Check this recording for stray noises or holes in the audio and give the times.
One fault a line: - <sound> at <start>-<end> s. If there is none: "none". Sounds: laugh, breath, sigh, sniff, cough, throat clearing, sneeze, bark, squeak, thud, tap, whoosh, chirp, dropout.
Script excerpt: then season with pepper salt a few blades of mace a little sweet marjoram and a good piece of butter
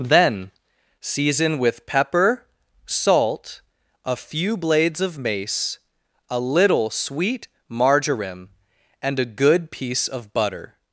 none